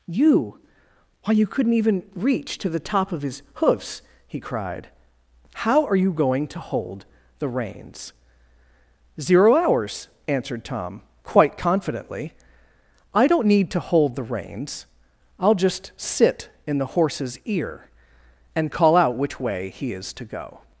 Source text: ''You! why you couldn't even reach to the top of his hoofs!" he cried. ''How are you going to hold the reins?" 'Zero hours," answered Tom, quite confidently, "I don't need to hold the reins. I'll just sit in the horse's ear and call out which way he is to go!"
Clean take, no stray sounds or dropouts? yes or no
yes